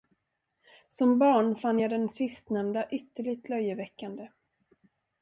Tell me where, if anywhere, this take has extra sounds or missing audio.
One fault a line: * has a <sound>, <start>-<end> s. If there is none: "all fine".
all fine